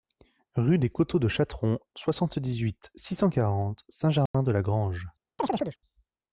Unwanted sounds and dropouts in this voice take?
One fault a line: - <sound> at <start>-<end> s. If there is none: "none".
- dropout at 4.3-4.3 s
- chirp at 5.4-5.8 s